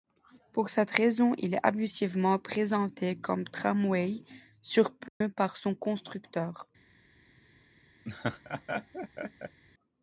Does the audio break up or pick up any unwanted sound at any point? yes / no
yes